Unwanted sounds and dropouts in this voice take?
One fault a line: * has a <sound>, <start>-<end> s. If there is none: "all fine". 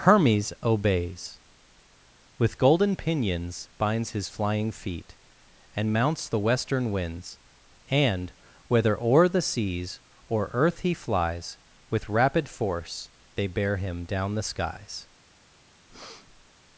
* has a breath, 15.9-16.5 s